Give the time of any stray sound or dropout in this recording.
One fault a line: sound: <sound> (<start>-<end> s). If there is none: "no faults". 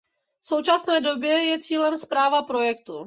no faults